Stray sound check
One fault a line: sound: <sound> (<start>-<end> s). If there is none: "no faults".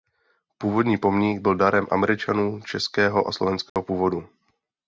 sound: dropout (3.7-3.8 s)